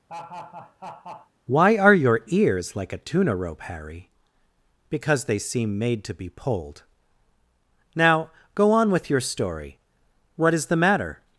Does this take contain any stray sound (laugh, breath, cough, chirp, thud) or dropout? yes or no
yes